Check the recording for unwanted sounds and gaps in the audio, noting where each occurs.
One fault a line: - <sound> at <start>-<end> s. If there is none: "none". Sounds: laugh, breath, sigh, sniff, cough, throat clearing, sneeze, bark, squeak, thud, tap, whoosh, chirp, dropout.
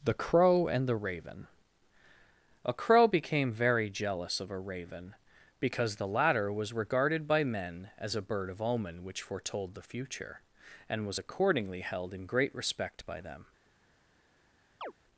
- chirp at 14.8-14.9 s